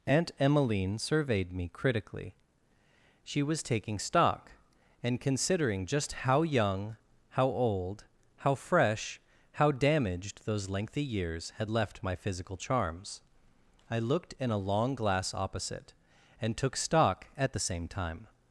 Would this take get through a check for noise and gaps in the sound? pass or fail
pass